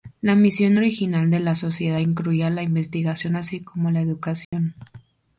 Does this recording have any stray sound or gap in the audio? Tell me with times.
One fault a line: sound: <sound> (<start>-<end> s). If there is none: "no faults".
sound: dropout (4.4-4.5 s)